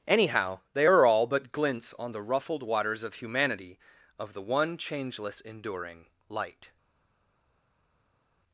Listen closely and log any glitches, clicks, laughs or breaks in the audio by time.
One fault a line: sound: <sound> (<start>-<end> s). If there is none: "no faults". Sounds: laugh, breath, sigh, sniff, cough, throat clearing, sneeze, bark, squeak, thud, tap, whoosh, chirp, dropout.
no faults